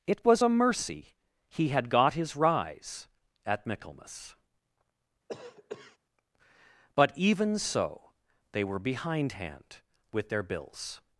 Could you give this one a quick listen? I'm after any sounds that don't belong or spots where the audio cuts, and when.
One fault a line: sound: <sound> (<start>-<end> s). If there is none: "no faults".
sound: cough (5.3-6.0 s)